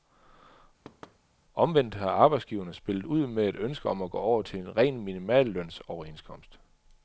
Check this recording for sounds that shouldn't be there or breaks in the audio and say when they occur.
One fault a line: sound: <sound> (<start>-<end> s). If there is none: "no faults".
sound: thud (0.8-1.2 s)